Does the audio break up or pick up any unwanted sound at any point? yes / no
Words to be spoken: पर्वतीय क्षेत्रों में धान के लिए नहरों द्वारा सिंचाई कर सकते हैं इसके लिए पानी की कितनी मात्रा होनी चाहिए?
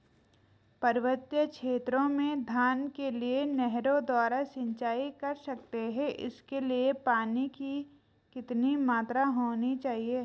no